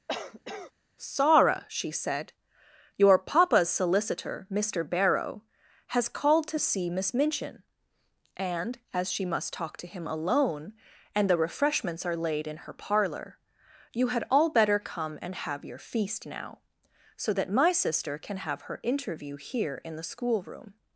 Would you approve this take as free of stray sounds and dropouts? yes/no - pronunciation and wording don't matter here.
no